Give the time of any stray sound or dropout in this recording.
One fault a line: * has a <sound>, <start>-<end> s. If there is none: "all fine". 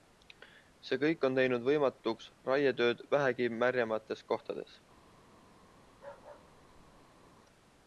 * has a bark, 5.9-7.3 s